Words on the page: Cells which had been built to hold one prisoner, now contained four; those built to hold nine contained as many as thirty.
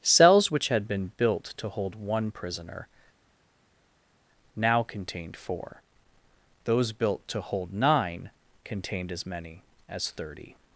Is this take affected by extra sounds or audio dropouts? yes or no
no